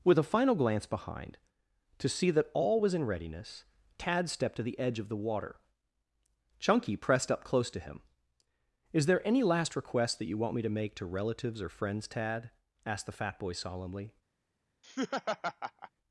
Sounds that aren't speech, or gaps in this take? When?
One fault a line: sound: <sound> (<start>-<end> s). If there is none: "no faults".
sound: laugh (14.8-15.9 s)